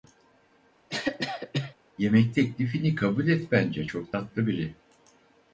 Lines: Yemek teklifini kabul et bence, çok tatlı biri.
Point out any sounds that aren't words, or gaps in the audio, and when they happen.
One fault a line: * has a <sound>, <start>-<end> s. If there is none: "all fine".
* has a cough, 0.9-1.7 s